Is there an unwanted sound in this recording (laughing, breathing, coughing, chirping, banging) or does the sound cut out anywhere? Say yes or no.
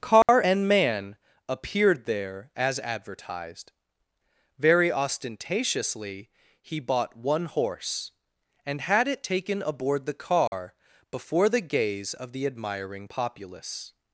yes